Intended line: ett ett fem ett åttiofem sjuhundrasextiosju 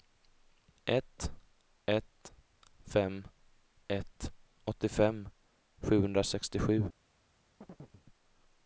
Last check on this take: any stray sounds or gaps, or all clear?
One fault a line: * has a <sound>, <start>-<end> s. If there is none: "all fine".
* has a chirp, 7.6-8.0 s